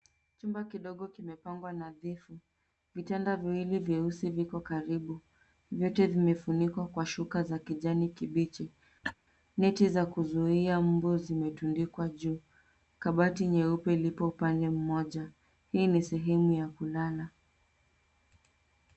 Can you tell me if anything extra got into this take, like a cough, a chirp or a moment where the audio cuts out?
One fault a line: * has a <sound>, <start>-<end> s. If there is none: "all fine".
* has a laugh, 9.0-9.1 s